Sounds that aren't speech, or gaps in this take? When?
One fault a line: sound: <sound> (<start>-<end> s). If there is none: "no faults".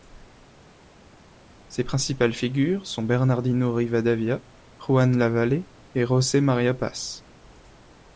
no faults